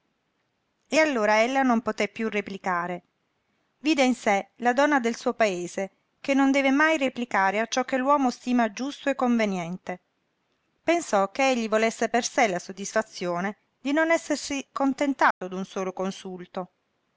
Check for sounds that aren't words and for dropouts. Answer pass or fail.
fail